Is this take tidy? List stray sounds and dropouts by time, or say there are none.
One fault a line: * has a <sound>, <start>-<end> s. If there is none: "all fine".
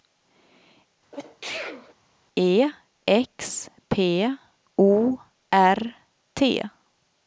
* has a sneeze, 1.1-1.9 s